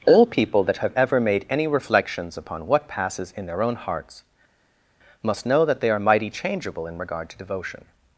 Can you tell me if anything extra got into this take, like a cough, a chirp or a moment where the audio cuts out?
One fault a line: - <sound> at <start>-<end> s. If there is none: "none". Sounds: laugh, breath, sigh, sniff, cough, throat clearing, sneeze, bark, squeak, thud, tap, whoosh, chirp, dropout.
none